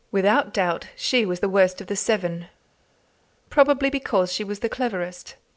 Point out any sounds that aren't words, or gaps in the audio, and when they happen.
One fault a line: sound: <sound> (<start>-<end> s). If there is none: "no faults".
no faults